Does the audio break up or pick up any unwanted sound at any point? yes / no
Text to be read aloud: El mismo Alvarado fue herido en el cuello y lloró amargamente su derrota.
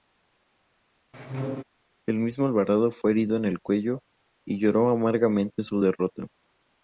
yes